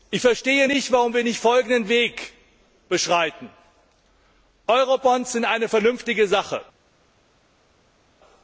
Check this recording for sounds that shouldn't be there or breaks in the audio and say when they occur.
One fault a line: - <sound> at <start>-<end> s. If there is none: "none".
none